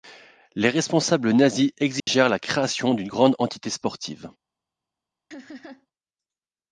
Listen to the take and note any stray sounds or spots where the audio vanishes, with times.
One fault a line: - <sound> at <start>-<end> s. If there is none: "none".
- dropout at 2.0-2.1 s
- laugh at 5.3-5.9 s